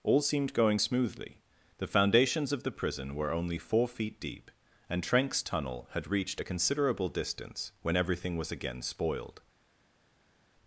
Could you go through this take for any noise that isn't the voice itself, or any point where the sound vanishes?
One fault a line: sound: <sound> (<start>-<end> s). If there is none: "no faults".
no faults